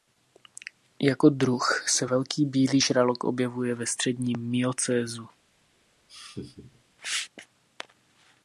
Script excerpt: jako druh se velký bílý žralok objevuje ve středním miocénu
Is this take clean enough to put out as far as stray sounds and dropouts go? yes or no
no